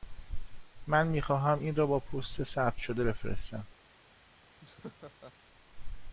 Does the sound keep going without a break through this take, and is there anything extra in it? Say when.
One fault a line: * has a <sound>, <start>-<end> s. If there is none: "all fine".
* has a laugh, 4.6-5.3 s